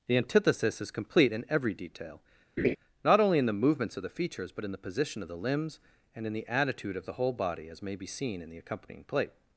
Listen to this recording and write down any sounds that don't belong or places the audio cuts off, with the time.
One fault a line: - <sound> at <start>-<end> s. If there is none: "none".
- laugh at 2.6-2.8 s